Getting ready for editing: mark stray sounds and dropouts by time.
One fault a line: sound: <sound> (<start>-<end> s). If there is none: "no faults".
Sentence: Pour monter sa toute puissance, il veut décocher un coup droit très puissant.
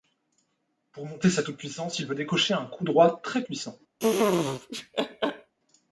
sound: laugh (4.0-5.5 s)